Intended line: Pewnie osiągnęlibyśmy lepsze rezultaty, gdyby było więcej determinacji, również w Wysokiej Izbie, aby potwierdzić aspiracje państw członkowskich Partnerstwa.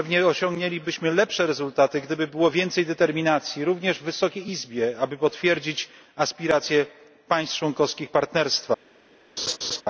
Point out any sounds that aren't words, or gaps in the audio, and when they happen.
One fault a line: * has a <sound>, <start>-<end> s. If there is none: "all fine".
* has a laugh, 9.4-9.8 s